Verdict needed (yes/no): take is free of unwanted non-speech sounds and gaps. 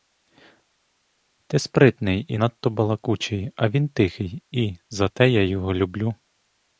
yes